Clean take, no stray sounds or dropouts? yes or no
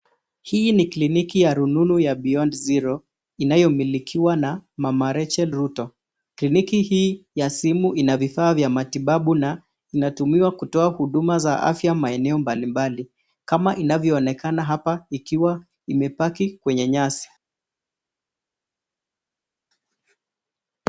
yes